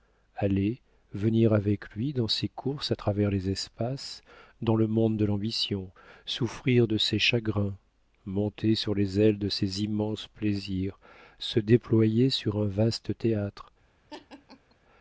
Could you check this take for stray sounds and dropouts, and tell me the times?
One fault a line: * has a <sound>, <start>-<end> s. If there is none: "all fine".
* has a laugh, 14.1-14.8 s